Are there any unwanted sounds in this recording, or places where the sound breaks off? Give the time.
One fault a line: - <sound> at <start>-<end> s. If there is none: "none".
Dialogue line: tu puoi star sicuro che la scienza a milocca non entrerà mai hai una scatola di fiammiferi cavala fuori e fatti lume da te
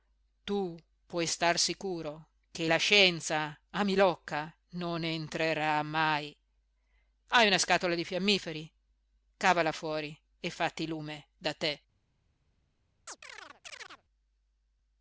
- chirp at 13.1-14.0 s